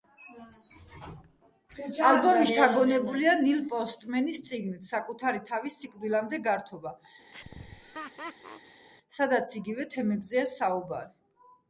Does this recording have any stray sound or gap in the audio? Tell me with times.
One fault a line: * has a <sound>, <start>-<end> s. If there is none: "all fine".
* has a laugh, 7.3-8.9 s